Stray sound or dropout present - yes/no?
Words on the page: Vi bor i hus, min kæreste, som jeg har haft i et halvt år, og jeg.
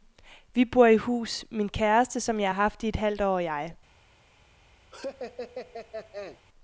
yes